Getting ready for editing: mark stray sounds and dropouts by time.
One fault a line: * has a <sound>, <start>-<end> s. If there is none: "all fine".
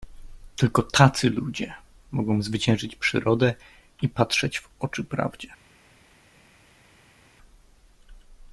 all fine